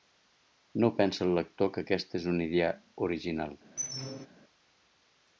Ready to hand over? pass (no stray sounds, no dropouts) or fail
fail